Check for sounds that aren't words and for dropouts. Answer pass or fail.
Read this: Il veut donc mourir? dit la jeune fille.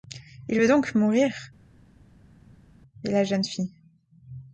pass